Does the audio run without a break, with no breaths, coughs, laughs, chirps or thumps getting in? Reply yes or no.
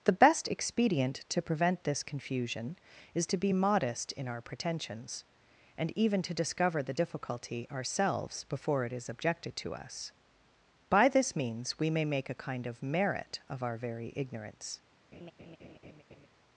no